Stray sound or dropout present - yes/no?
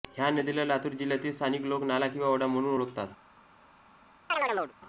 yes